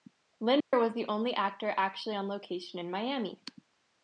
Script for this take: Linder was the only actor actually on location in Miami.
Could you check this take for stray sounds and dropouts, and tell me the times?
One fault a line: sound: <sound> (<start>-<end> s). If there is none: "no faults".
sound: dropout (0.6-0.7 s)